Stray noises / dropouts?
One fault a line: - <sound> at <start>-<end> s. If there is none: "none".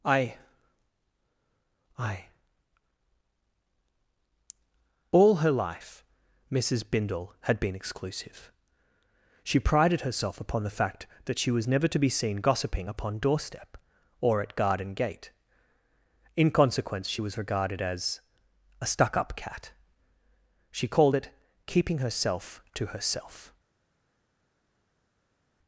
none